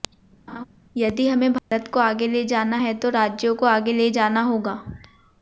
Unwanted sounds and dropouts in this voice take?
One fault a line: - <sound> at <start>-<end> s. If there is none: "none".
- laugh at 0.5-0.6 s
- dropout at 1.6-1.7 s